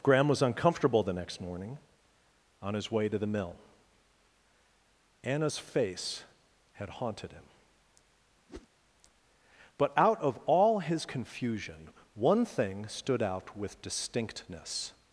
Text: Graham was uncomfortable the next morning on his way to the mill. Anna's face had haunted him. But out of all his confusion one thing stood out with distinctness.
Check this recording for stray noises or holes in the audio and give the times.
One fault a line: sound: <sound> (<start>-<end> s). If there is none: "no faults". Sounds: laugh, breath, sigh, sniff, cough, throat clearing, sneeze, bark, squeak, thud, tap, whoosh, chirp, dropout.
sound: whoosh (8.5-8.7 s)